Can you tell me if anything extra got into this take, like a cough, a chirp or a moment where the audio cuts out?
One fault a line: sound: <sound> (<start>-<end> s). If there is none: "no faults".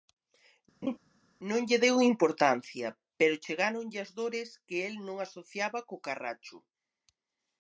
sound: laugh (0.8-1.0 s)